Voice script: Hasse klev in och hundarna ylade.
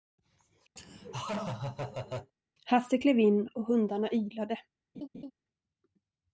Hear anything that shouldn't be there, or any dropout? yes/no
yes